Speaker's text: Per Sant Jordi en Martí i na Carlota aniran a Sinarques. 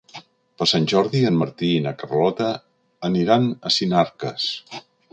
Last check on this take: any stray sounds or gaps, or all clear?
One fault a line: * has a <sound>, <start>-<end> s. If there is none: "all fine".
all fine